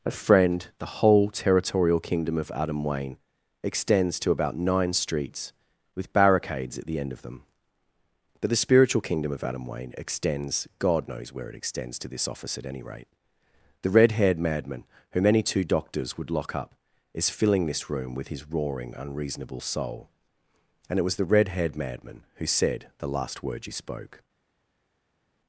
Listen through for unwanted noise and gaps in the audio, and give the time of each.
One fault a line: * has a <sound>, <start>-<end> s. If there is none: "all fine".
all fine